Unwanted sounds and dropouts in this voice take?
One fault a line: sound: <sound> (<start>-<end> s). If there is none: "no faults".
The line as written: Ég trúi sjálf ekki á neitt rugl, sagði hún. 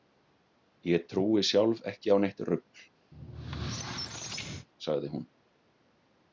sound: squeak (3.1-4.7 s)